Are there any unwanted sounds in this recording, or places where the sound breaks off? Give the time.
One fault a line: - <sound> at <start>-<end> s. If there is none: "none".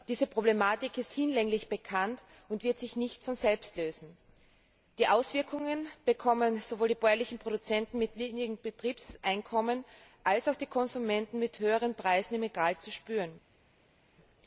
none